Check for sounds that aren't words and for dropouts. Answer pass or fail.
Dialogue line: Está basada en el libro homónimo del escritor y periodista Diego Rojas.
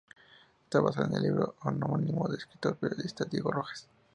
pass